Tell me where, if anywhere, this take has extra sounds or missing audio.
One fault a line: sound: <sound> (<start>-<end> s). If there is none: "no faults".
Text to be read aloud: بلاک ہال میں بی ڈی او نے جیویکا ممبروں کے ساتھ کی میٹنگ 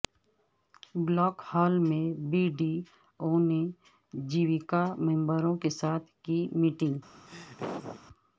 sound: laugh (7.3-8.0 s)